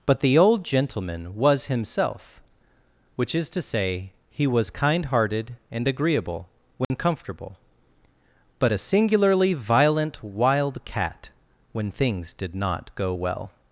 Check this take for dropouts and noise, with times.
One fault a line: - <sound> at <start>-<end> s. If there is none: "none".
- dropout at 6.8-6.9 s